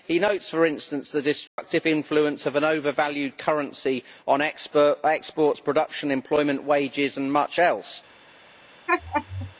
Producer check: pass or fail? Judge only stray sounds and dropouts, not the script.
fail